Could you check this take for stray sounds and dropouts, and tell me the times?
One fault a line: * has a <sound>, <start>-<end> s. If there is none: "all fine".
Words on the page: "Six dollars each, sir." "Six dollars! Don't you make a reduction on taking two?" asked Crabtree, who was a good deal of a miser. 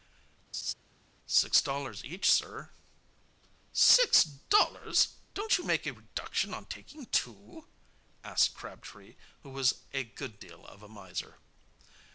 * has a laugh, 0.5-0.7 s